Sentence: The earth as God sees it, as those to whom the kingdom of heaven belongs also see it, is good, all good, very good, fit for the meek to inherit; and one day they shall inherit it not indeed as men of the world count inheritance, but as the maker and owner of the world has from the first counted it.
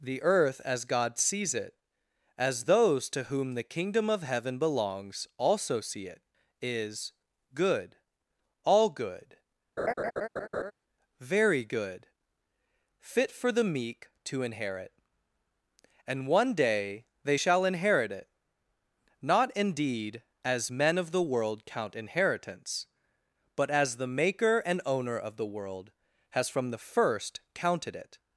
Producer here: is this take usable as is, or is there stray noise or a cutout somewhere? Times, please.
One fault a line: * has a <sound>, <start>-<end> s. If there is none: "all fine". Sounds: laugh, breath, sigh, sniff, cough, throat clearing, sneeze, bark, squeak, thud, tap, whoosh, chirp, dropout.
* has a laugh, 9.8-10.7 s